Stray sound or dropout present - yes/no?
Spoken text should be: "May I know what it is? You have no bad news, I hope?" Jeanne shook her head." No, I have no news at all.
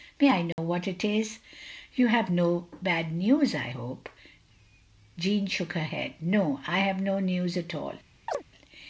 yes